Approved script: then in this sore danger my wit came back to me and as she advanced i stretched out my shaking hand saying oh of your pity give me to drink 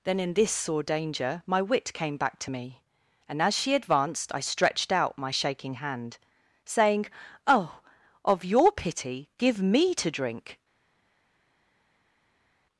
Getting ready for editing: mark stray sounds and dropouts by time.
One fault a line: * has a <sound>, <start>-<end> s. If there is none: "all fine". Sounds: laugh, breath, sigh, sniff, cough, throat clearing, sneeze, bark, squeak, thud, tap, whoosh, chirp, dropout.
all fine